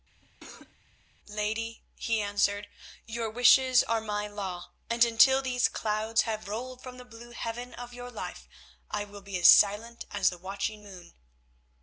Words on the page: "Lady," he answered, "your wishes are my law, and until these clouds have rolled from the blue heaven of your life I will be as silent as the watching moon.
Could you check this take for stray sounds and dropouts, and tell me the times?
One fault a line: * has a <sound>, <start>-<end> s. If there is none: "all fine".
* has a cough, 0.2-0.8 s